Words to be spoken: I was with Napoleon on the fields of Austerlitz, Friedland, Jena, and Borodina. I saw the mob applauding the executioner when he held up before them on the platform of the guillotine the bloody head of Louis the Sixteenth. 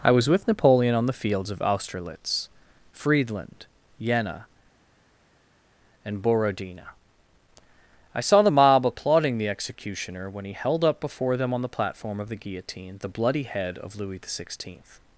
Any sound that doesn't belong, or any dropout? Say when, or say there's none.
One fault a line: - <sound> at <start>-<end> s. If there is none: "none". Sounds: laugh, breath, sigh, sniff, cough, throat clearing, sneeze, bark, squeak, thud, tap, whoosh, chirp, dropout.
none